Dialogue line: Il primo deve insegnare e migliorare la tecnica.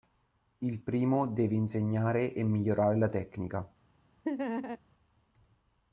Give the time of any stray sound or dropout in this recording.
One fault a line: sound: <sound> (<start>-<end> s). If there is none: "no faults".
sound: laugh (4.2-4.8 s)